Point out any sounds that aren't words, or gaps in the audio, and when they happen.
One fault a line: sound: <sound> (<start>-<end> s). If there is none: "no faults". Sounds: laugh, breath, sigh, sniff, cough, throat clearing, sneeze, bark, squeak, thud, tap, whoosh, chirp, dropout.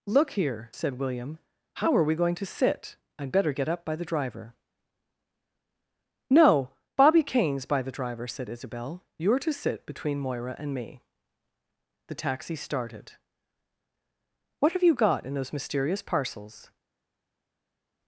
no faults